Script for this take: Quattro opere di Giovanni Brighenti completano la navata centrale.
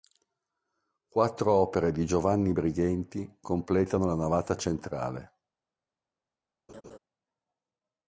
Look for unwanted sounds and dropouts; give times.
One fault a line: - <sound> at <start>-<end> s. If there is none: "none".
- laugh at 6.7-7.0 s